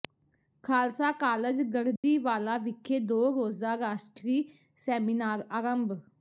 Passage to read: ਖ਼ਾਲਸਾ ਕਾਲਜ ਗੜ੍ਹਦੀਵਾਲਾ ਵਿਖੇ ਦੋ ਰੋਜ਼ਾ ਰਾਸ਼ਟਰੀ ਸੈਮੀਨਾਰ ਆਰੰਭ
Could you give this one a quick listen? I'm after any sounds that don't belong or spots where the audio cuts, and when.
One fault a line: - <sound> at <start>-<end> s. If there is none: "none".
- dropout at 2.0-2.0 s